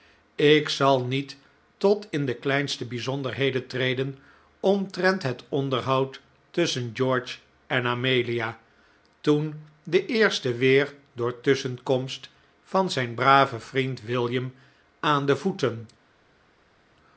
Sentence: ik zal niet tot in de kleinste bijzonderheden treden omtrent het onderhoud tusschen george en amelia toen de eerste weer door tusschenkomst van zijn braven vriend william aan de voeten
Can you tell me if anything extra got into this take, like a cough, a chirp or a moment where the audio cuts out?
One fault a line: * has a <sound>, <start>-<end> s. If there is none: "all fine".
all fine